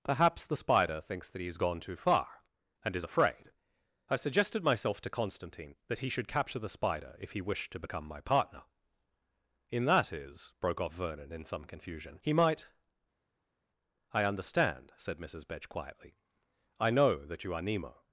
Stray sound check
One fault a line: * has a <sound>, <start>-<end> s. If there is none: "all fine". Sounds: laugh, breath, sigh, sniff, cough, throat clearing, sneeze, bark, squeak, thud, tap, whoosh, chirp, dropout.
all fine